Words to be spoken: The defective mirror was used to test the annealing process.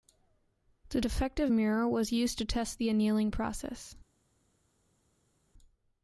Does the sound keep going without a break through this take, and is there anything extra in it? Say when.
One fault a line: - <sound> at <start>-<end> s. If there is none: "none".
none